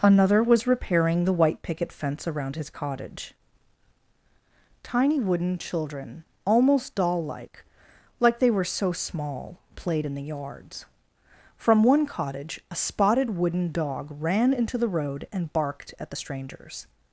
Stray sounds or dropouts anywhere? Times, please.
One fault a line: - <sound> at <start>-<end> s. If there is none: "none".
none